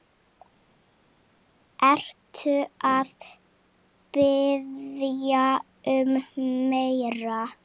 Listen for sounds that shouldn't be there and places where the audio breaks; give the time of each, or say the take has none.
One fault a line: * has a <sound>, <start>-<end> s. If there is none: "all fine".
all fine